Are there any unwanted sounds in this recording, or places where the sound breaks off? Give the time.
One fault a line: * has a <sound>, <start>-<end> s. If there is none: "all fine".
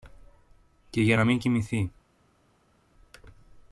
all fine